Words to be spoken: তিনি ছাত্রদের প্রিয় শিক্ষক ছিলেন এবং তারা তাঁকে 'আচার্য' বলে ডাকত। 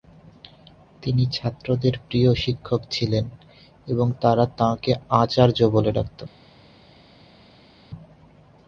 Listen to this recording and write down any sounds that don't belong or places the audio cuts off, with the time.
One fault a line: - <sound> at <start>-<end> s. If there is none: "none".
none